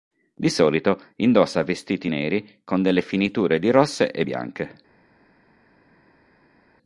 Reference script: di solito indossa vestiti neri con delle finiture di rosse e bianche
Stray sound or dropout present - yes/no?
no